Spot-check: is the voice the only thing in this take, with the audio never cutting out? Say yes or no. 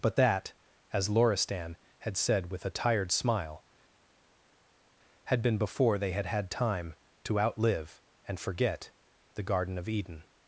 yes